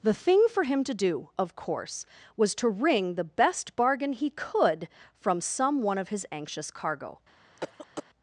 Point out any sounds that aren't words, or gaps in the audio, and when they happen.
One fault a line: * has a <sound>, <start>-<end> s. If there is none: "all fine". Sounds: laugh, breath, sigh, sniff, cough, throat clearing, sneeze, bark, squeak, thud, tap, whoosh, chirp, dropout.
* has a cough, 7.6-8.0 s